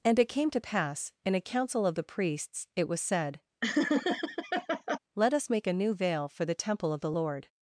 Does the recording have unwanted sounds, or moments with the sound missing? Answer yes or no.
yes